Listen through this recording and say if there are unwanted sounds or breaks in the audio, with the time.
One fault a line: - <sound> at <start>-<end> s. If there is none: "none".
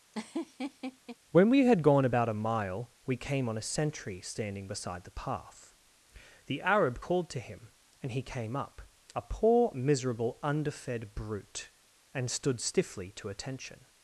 - laugh at 0.1-1.2 s